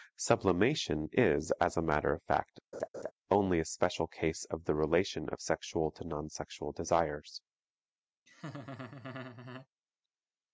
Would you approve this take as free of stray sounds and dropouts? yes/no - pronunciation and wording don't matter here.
no